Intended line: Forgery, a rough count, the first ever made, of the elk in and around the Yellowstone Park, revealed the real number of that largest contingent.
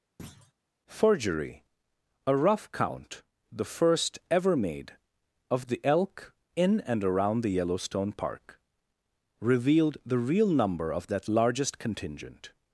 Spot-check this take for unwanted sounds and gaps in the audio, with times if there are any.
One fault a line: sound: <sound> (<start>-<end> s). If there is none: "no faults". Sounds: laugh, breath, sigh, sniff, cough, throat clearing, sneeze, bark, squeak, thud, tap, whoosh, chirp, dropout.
sound: thud (0.2-0.5 s)